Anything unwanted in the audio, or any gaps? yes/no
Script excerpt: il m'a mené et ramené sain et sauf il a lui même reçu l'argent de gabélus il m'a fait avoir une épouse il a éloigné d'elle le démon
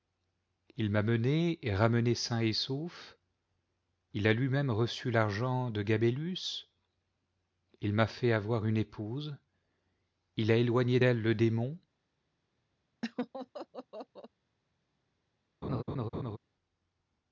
yes